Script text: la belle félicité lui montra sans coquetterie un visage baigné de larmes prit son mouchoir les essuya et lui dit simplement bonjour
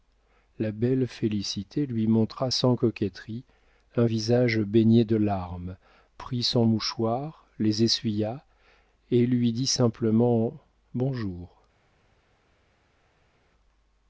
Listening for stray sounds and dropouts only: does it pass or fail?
pass